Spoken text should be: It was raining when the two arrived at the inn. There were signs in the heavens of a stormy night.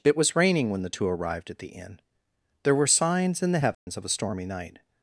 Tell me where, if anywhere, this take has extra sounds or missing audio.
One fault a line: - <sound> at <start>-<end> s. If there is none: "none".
- dropout at 3.7-3.9 s